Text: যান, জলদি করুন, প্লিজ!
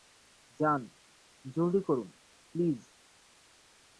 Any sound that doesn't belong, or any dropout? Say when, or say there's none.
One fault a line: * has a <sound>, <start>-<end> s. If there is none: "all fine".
all fine